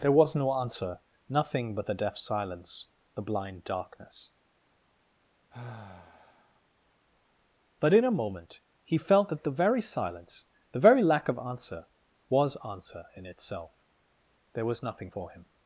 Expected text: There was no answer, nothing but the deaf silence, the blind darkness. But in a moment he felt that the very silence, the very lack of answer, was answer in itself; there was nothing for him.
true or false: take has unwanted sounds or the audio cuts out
true